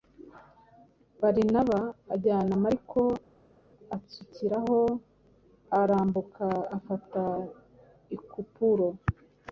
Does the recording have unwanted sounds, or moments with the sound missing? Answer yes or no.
no